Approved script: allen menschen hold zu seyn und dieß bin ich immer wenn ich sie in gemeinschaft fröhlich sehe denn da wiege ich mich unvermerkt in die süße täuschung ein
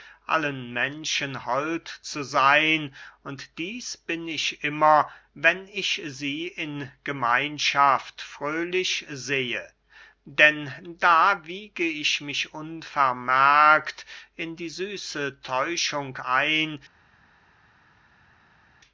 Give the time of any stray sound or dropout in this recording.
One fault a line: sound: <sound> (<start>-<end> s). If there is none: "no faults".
no faults